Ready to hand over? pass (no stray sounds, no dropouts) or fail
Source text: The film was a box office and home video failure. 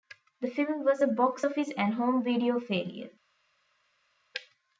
pass